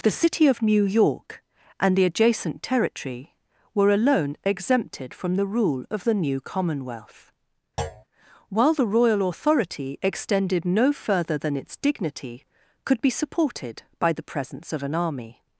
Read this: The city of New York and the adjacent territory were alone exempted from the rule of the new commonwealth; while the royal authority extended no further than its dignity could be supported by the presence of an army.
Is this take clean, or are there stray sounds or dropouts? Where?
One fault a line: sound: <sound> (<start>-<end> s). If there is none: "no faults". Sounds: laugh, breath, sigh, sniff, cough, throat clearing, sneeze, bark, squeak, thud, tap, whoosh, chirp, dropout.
sound: thud (7.8-8.0 s)